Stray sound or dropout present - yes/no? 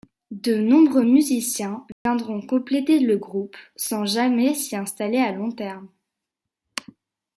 yes